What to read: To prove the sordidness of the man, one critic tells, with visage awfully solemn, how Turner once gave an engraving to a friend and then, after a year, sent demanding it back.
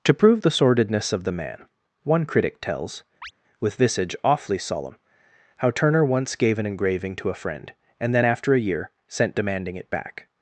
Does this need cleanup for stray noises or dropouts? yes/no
yes